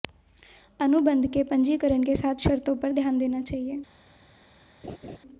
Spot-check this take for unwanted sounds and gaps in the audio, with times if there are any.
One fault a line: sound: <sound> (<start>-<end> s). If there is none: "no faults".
sound: laugh (4.8-5.2 s)